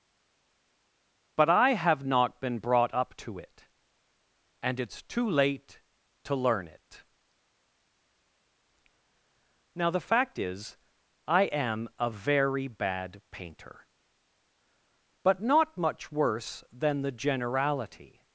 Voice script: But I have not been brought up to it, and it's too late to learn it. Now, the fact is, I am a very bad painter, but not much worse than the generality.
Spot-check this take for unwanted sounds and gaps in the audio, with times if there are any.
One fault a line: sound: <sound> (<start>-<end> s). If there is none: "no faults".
no faults